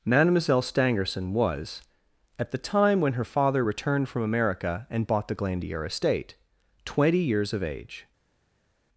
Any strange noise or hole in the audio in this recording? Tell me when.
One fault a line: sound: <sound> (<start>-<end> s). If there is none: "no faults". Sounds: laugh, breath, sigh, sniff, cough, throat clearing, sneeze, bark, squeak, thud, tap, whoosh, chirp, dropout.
no faults